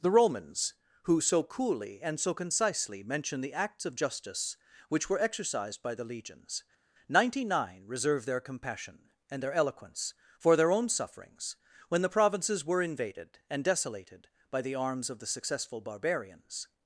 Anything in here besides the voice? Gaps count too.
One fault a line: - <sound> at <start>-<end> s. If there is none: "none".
none